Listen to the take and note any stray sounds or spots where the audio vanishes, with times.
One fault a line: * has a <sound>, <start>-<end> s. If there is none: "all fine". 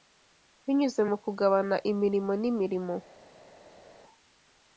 all fine